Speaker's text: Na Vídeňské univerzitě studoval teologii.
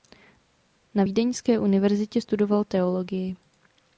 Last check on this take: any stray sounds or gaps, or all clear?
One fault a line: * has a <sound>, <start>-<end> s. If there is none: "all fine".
all fine